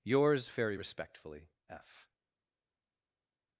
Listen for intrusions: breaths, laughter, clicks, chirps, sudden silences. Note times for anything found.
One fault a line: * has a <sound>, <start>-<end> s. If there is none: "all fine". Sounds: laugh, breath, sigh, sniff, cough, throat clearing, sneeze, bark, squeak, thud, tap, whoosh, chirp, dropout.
all fine